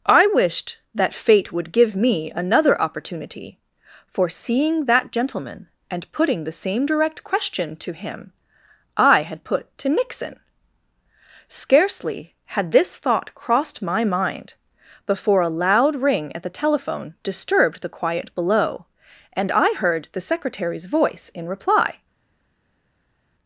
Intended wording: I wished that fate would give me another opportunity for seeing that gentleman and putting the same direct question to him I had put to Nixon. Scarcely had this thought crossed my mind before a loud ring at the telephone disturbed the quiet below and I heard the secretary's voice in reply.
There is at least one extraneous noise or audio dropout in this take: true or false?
false